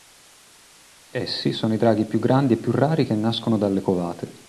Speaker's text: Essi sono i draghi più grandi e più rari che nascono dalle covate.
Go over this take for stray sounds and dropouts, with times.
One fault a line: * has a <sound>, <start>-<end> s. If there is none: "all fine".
all fine